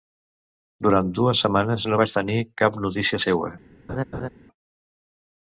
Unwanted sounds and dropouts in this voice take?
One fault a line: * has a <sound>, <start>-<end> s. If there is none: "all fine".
* has a laugh, 3.9-4.3 s